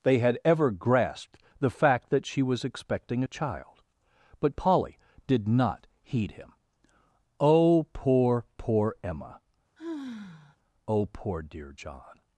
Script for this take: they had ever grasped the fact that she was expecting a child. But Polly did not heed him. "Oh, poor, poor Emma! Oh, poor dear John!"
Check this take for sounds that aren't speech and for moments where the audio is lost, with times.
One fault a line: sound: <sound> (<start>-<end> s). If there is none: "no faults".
sound: sigh (9.8-10.6 s)